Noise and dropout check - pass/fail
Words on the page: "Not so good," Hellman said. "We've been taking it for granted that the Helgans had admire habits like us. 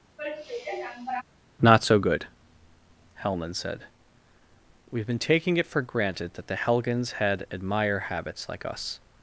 fail